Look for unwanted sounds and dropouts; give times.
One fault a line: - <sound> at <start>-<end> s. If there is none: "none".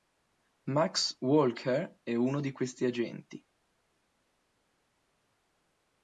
none